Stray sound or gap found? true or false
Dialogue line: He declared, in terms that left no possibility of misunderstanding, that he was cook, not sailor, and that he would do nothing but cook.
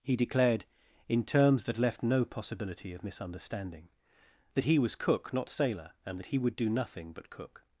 false